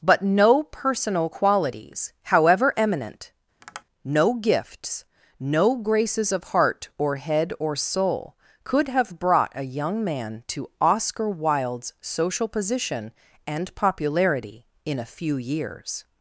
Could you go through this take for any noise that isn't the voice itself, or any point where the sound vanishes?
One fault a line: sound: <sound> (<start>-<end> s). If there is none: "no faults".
sound: tap (3.6-3.8 s)